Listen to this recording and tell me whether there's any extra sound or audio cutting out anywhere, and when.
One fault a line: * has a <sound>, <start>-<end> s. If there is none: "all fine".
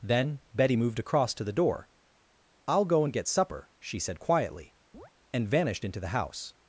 * has a chirp, 4.9-5.1 s